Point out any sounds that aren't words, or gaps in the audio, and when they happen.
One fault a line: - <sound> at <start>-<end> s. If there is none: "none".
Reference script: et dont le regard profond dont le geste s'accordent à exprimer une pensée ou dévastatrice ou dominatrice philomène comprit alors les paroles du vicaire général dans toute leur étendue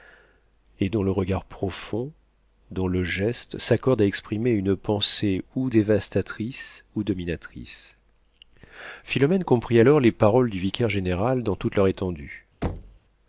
- thud at 12.6-13.0 s